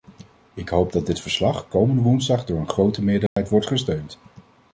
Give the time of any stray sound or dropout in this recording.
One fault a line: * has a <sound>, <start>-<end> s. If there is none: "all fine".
* has a dropout, 3.3-3.4 s